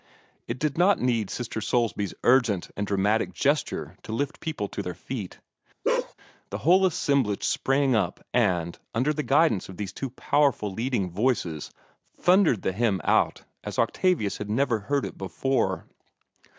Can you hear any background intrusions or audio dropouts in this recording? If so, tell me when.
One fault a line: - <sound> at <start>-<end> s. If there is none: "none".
- bark at 5.8-6.1 s